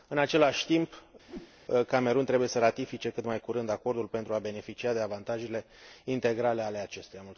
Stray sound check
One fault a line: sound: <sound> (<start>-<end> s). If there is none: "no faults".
sound: whoosh (1.3-1.5 s)